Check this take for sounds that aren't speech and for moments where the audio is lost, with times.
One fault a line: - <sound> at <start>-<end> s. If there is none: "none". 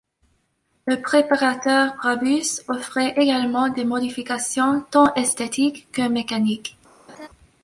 - laugh at 7.1-7.3 s